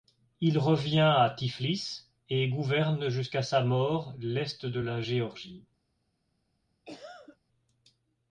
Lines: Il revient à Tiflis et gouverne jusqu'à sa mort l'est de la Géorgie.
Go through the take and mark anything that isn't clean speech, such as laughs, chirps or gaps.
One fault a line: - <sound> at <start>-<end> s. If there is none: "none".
- cough at 6.8-7.4 s